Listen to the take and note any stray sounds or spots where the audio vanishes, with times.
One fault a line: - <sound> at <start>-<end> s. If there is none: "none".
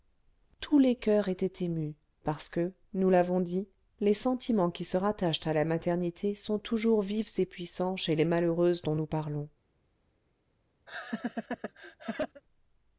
- laugh at 10.9-12.4 s